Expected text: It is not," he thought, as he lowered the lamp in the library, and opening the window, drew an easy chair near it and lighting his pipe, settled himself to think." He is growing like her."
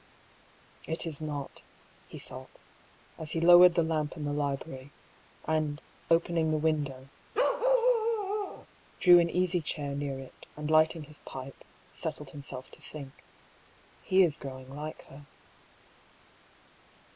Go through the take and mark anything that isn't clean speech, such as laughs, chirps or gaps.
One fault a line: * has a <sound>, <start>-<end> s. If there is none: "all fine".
* has a bark, 7.3-8.7 s